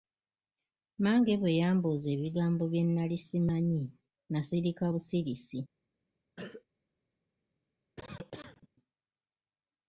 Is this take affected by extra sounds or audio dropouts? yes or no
yes